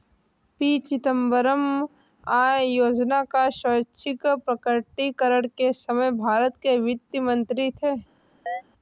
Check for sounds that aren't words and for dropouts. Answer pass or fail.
fail